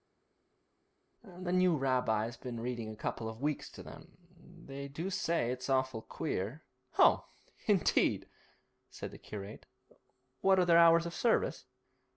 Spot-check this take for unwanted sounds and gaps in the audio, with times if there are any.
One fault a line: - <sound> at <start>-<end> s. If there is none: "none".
none